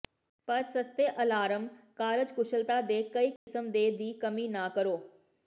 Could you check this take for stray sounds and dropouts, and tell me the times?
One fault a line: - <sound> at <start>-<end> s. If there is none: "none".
- dropout at 3.4-3.5 s